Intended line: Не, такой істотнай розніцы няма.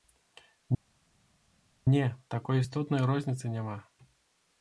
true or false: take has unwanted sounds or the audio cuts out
false